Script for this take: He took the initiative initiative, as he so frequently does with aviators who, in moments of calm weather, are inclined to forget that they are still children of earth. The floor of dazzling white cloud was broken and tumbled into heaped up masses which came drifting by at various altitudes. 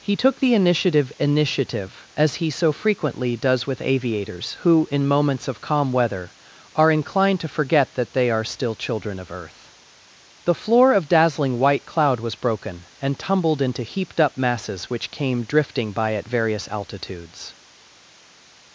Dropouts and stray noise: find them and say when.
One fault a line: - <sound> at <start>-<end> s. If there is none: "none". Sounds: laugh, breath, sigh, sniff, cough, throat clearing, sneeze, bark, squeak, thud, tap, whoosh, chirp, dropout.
none